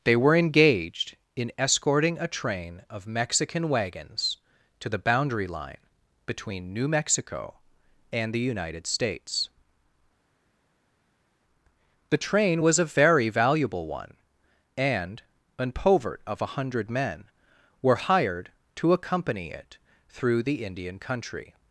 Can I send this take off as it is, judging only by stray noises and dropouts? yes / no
yes